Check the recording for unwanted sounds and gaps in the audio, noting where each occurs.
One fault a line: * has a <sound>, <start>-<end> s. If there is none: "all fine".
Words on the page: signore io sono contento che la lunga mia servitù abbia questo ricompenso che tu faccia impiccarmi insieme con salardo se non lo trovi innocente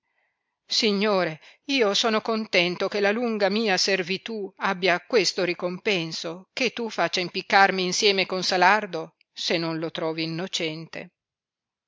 all fine